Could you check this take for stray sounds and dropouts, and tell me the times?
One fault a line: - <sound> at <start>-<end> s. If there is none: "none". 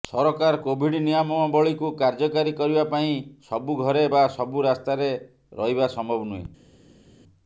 none